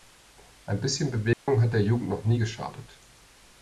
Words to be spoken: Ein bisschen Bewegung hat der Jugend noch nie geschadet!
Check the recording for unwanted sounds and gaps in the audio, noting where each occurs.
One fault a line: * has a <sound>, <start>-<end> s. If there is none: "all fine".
* has a dropout, 1.3-1.5 s